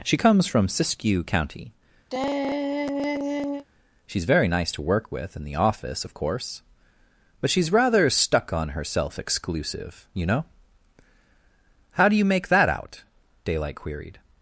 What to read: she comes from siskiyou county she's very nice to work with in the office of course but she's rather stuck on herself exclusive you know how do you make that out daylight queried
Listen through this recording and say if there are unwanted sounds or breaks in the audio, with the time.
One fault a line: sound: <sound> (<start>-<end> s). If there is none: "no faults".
sound: sigh (2.1-3.6 s)